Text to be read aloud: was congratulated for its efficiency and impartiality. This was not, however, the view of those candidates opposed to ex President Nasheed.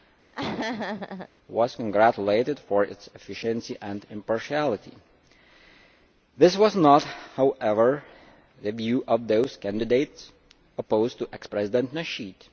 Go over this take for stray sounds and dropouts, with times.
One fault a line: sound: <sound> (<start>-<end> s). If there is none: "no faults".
sound: laugh (0.3-1.3 s)